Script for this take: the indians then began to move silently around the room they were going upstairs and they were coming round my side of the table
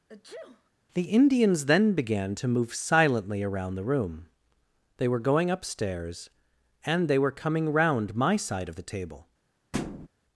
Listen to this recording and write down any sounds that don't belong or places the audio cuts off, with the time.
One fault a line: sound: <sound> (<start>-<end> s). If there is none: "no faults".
sound: sneeze (0.1-0.7 s)
sound: thud (9.7-10.1 s)